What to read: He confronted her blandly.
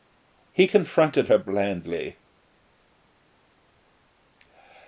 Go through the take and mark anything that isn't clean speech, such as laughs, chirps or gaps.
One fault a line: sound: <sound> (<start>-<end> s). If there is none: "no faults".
no faults